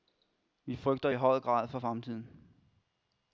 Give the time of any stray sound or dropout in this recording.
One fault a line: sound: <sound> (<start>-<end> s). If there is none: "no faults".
no faults